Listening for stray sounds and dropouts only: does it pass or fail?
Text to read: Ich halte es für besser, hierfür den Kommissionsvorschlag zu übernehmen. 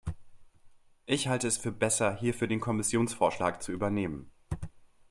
pass